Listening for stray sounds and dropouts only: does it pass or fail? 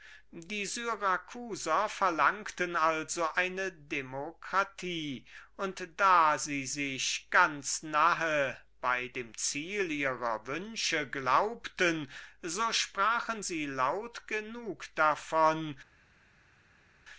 pass